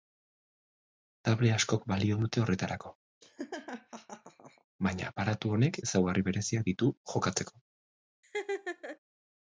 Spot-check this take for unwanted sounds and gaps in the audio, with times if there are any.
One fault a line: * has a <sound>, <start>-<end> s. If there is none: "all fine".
* has a laugh, 3.2-4.6 s
* has a laugh, 8.2-9.0 s